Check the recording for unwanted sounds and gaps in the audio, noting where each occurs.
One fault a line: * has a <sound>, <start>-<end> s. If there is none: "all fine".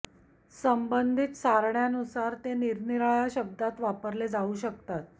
all fine